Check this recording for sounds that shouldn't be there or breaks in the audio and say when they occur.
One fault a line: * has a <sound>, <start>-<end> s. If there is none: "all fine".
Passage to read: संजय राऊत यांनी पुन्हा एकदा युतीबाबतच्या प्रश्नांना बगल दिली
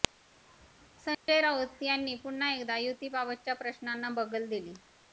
* has a dropout, 1.1-1.3 s